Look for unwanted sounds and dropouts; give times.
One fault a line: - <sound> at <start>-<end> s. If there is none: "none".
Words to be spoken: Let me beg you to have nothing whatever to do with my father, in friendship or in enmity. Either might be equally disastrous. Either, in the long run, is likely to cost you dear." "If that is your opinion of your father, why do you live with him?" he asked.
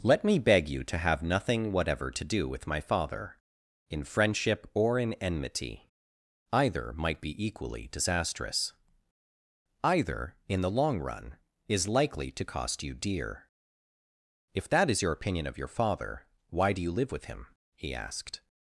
none